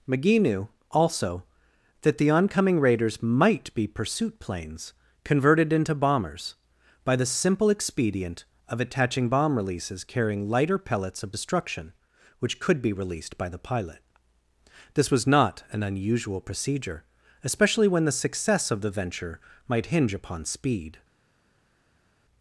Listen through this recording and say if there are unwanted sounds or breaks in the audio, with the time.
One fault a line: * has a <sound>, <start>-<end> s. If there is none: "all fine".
all fine